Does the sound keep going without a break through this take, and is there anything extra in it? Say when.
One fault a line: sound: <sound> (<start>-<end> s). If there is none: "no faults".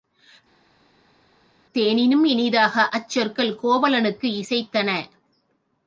no faults